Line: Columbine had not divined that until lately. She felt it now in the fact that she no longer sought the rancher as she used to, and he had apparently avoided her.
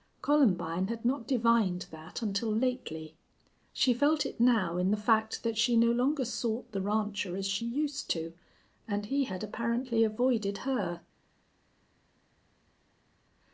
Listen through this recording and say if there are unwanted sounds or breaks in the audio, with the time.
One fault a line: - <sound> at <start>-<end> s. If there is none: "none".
none